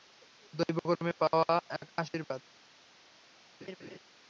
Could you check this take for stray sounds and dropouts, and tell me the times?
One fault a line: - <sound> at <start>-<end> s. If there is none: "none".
- laugh at 3.6-4.0 s